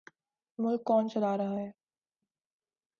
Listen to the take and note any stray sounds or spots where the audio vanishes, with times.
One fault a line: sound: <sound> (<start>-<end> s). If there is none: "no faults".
no faults